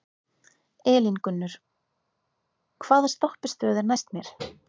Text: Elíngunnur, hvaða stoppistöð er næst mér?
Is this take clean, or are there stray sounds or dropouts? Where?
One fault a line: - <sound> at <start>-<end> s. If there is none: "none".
none